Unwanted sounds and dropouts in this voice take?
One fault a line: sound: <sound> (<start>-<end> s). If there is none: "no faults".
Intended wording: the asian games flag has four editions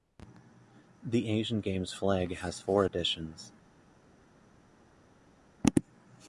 no faults